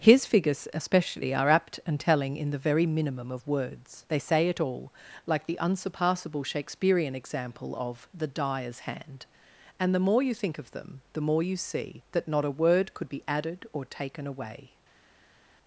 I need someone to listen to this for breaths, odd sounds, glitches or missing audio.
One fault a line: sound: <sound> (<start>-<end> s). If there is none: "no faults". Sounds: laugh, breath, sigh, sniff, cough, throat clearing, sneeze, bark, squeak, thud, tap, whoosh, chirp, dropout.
no faults